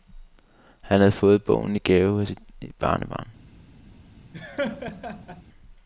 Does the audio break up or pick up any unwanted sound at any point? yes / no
yes